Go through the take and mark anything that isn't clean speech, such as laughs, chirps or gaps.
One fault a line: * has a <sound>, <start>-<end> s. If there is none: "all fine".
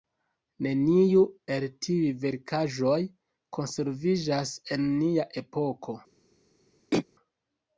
* has a throat clearing, 6.9-7.0 s